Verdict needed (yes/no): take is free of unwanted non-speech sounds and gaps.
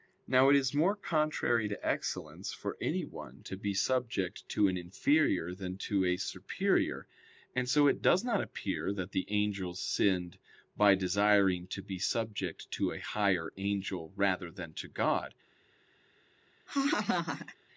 no